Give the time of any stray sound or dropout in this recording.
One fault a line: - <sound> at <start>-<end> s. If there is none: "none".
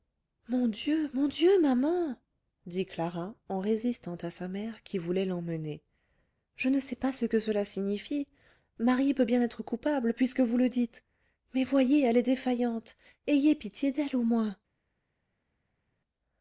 none